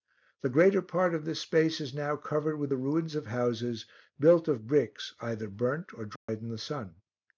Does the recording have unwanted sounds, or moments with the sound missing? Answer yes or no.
yes